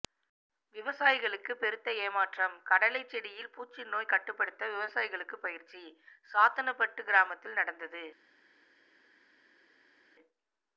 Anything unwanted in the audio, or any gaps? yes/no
no